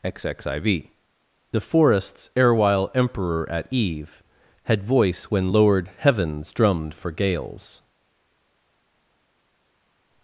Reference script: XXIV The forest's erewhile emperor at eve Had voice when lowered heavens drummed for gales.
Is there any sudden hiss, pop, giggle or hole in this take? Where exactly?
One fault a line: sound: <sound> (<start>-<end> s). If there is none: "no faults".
no faults